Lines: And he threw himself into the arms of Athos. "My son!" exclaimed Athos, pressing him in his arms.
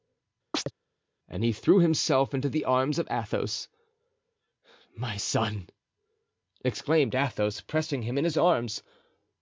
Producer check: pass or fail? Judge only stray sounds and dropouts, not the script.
fail